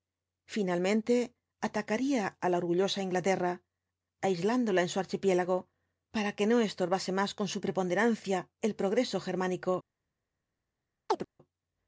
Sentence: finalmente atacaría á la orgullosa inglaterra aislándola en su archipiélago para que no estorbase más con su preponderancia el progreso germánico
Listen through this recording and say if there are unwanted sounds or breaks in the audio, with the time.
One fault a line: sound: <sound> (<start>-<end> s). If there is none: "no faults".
sound: chirp (11.1-11.3 s)